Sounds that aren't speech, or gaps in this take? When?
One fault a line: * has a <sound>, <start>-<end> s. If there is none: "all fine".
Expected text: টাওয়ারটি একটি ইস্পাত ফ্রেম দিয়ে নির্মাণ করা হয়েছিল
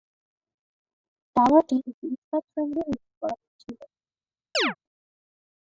* has a chirp, 4.5-4.8 s